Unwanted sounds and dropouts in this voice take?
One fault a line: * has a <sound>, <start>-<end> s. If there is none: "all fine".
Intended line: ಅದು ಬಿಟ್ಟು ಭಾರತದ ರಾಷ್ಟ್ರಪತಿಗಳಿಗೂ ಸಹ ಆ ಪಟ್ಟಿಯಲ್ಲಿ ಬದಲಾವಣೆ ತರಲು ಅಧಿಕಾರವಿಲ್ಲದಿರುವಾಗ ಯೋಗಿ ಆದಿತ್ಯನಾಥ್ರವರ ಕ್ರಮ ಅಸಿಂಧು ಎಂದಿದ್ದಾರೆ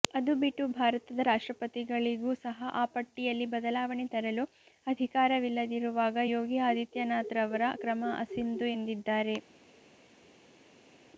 all fine